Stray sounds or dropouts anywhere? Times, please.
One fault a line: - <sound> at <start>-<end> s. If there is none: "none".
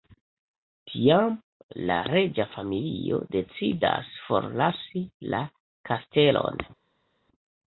none